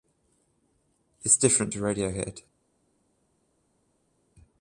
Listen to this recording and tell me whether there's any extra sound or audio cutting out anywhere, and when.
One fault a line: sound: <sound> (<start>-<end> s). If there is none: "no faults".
no faults